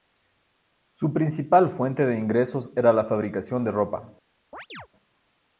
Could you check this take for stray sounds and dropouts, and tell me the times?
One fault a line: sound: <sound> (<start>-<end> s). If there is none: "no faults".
sound: chirp (4.5-4.9 s)